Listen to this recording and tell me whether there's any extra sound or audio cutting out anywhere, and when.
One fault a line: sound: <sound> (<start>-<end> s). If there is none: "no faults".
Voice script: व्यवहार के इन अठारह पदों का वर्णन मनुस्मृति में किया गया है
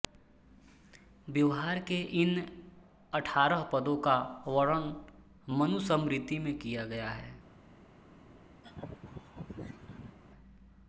sound: laugh (8.6-10.2 s)